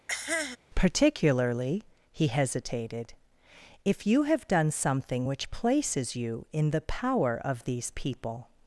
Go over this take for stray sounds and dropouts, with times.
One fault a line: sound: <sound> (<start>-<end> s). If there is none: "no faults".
sound: cough (0.1-0.6 s)